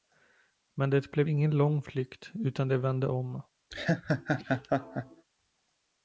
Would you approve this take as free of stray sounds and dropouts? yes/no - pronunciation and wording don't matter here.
no